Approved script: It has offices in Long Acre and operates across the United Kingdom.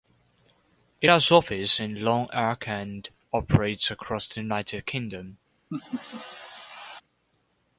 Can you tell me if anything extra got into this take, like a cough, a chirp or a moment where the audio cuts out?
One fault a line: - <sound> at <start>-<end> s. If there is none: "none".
- laugh at 5.7-7.0 s